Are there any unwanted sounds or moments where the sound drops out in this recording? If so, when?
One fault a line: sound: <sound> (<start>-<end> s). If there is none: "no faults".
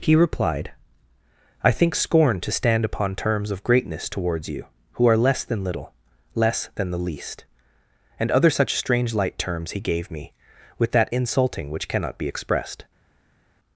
no faults